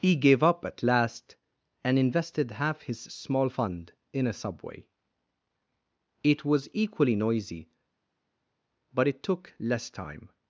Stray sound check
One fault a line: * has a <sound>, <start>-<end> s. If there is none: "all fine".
all fine